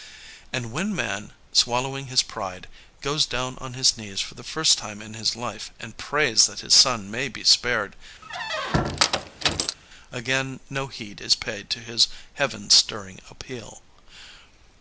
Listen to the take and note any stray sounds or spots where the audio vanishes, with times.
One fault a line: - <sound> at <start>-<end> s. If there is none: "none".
- squeak at 8.2-9.8 s